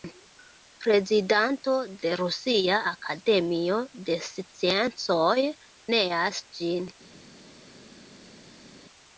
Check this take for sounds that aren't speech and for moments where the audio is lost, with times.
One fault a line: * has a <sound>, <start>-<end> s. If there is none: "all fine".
all fine